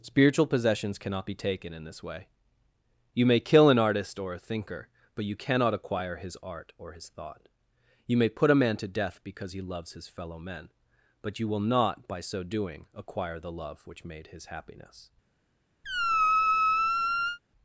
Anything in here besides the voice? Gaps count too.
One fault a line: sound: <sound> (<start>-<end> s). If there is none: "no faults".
sound: squeak (15.8-17.4 s)